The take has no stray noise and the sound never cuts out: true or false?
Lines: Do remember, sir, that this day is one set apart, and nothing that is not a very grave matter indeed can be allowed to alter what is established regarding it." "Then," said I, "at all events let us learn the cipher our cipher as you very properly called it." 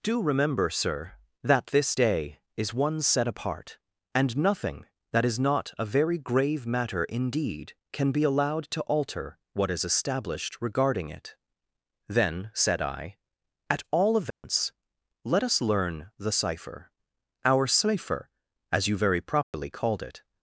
false